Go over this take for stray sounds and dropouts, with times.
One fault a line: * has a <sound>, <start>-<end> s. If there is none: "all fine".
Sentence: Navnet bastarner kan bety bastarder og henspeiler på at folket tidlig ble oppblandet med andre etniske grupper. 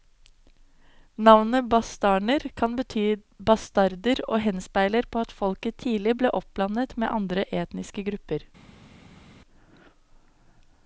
all fine